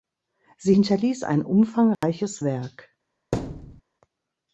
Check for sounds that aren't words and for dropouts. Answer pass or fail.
fail